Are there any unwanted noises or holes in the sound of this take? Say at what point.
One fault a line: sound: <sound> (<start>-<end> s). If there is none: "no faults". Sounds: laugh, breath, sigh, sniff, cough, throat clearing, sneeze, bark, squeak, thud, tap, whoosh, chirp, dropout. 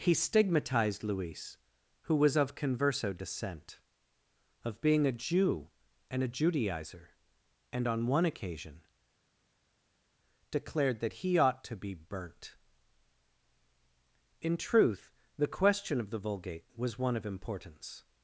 no faults